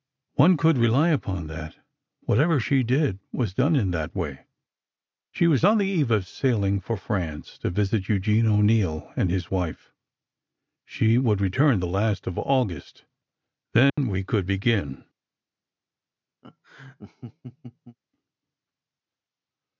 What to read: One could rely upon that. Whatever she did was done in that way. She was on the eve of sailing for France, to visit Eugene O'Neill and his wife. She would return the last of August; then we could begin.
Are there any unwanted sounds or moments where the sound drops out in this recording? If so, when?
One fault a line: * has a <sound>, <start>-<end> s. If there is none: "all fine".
* has a dropout, 13.9-14.0 s
* has a laugh, 16.4-18.0 s